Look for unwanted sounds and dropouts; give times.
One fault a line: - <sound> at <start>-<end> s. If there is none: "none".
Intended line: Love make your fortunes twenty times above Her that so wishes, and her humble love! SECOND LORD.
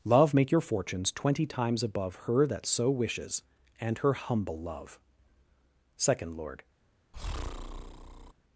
- breath at 7.1-8.3 s